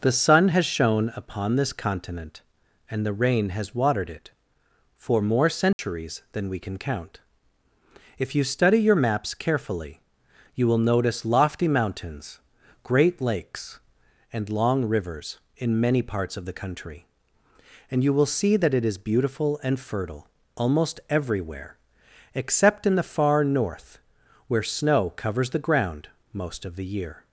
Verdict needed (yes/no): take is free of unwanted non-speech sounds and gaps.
no